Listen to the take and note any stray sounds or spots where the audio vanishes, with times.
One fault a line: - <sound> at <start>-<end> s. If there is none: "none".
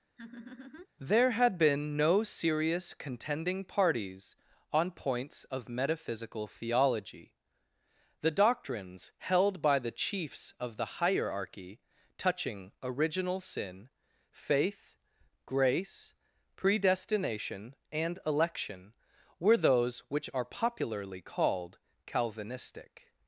- laugh at 0.2-0.9 s